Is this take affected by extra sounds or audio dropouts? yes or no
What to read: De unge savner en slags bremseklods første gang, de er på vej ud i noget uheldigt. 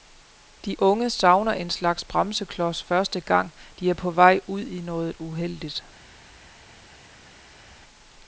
no